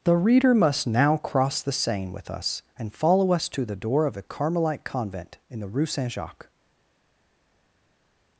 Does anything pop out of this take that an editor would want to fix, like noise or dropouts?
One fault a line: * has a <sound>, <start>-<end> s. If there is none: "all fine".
all fine